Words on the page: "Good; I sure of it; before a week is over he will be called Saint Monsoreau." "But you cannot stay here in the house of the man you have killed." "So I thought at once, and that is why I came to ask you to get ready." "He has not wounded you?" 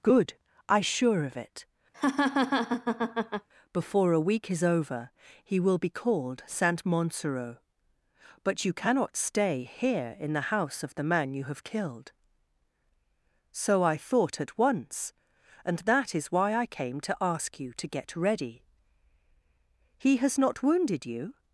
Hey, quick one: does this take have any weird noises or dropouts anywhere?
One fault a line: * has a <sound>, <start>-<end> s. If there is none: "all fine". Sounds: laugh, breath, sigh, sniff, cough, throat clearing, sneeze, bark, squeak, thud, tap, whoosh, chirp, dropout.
* has a laugh, 1.9-3.5 s